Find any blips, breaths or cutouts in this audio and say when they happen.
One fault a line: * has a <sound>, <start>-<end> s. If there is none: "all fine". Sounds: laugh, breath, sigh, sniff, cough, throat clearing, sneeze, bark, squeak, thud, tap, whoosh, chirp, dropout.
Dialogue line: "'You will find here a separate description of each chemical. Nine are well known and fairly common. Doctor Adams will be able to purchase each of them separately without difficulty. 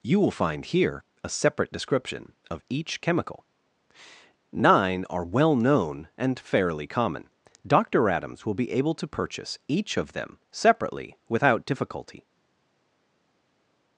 all fine